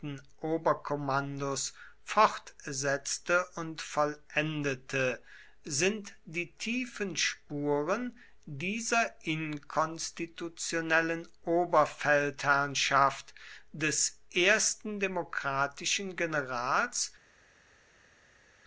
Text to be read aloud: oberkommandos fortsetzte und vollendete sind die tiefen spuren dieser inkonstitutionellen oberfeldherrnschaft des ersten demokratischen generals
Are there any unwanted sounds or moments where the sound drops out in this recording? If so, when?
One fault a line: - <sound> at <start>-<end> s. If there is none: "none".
none